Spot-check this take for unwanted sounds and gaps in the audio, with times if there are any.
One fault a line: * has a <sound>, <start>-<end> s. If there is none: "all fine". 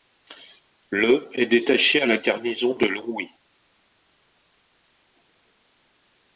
all fine